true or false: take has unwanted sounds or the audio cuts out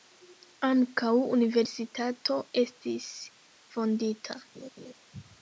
true